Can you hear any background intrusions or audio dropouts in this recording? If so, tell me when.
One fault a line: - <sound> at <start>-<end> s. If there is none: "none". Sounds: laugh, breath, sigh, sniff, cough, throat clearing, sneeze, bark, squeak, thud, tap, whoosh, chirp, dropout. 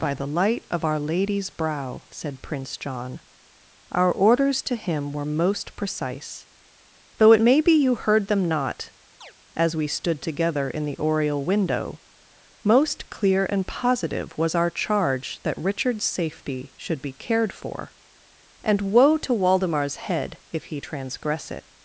- chirp at 9.2-9.3 s